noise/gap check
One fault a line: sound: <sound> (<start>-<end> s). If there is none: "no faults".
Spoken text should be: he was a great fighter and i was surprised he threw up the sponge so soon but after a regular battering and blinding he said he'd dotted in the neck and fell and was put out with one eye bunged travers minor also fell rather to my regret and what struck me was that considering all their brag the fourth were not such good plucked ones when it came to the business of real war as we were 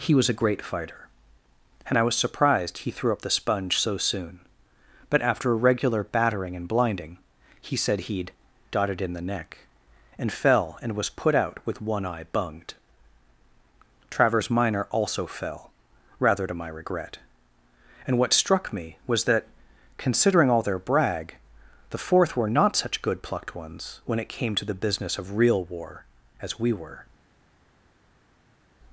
no faults